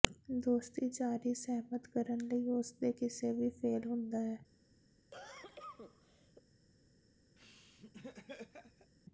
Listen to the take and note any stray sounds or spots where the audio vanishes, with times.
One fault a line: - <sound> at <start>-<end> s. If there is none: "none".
- cough at 5.1-6.4 s
- laugh at 7.4-8.9 s